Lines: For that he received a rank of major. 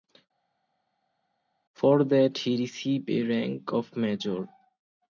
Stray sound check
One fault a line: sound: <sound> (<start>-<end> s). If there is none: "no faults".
no faults